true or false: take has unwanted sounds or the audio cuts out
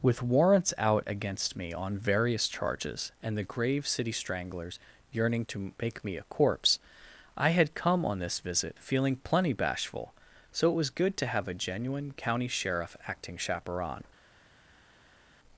false